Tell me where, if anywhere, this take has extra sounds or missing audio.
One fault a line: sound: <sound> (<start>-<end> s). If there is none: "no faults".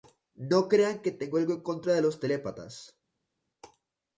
no faults